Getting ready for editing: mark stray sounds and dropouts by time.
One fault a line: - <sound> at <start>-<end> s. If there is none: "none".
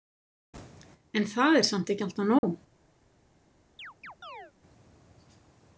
- dropout at 2.4-2.4 s
- chirp at 3.8-4.5 s